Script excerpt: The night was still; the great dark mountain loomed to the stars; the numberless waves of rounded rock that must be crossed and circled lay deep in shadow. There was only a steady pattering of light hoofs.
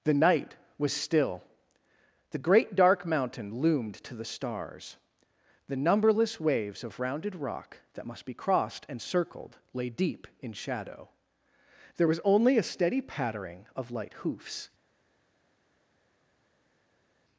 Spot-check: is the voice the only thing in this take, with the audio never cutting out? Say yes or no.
yes